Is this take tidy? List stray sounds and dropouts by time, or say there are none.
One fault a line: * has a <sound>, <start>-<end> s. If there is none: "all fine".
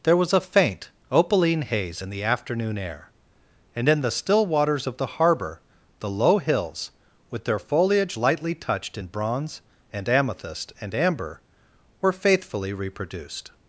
all fine